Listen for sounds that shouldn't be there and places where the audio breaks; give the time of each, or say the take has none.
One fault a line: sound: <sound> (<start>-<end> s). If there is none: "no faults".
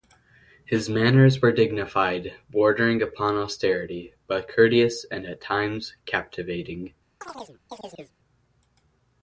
sound: chirp (7.2-8.1 s)